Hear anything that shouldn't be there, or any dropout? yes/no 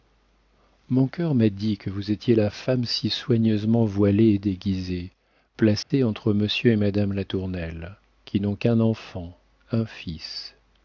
yes